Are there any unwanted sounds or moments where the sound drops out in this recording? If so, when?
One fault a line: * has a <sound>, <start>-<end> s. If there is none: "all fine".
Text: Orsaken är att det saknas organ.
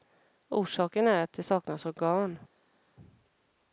all fine